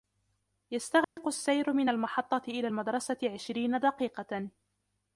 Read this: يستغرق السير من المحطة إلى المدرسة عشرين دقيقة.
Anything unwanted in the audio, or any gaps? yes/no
yes